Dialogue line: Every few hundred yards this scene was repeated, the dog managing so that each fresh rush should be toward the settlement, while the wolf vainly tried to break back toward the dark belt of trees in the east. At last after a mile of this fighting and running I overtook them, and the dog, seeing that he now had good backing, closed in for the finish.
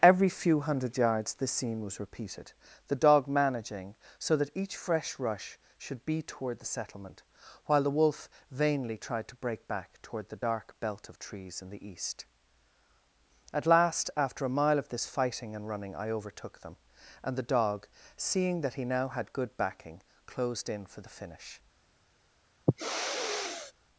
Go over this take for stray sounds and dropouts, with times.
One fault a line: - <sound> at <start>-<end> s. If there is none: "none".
- sniff at 22.7-23.7 s